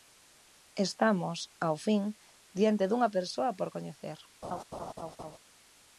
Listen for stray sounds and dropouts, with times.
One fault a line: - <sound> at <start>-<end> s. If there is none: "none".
- laugh at 4.4-5.4 s